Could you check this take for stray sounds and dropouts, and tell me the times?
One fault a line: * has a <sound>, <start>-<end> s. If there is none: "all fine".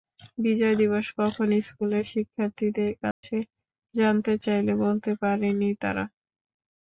* has a dropout, 3.1-3.2 s